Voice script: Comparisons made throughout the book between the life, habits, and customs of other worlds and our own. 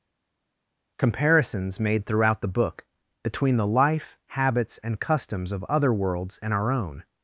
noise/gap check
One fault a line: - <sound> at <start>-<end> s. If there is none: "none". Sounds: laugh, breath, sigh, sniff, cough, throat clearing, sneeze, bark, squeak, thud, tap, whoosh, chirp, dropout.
none